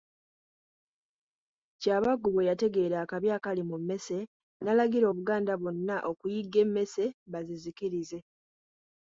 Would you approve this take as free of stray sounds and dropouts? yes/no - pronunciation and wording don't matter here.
yes